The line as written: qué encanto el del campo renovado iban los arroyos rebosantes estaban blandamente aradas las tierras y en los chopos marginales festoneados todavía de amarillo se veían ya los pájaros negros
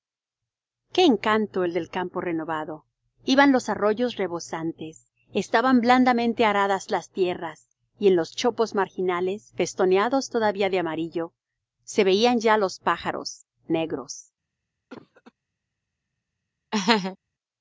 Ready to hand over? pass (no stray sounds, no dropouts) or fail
fail